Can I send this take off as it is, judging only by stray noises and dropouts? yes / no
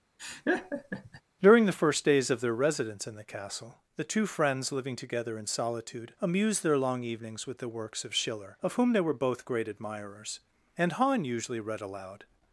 no